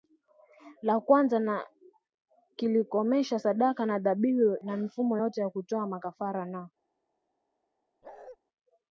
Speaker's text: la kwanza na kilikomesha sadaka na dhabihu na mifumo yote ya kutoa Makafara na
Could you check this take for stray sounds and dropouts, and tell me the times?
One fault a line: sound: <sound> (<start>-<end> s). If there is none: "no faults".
sound: bark (8.0-8.4 s)